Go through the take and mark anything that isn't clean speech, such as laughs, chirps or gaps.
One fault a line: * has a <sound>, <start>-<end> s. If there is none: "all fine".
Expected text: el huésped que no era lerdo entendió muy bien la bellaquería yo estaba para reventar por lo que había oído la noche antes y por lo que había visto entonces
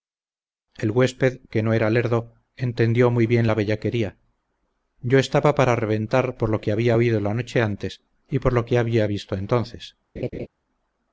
* has a laugh, 10.2-10.5 s